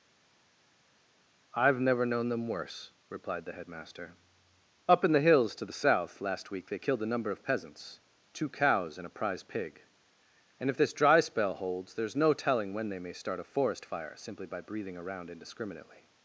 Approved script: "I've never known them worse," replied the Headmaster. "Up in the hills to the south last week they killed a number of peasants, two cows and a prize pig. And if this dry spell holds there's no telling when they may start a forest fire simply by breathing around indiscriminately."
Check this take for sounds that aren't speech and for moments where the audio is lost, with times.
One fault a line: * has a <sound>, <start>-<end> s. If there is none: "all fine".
all fine